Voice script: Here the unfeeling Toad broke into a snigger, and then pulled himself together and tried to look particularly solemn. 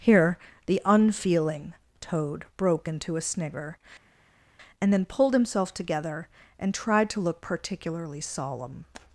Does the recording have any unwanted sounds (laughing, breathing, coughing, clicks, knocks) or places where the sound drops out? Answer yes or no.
no